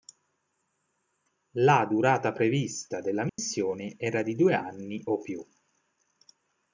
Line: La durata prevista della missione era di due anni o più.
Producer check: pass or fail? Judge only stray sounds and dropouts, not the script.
fail